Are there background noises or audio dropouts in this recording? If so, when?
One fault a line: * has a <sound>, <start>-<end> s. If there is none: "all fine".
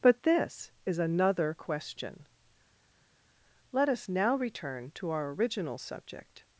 all fine